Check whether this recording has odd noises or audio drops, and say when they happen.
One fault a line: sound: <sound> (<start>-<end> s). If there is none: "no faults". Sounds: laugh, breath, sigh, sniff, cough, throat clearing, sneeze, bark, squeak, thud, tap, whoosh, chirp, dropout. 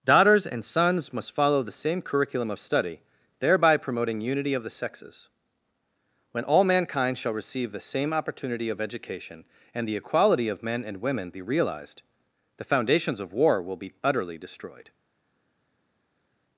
no faults